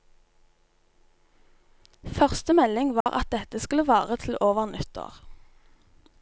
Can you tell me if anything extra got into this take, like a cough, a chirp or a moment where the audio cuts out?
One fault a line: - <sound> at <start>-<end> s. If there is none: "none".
- dropout at 3.0-3.1 s